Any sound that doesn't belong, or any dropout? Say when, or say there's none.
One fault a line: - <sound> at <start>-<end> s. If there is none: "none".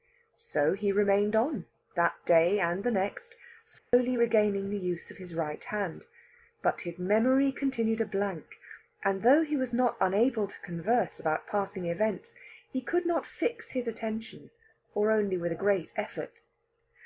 - dropout at 3.8-3.9 s